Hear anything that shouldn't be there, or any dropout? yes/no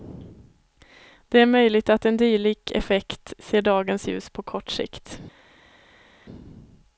no